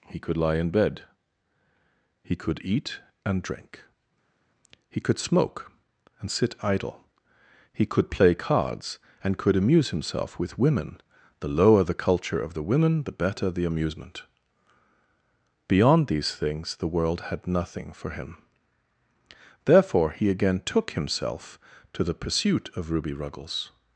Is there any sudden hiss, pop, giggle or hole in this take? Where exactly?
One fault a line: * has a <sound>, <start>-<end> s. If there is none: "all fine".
all fine